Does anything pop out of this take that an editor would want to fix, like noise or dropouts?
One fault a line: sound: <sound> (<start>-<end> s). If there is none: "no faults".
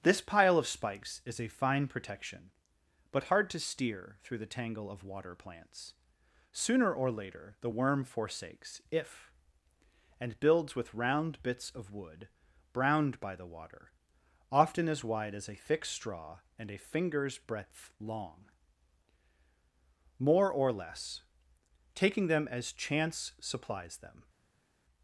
no faults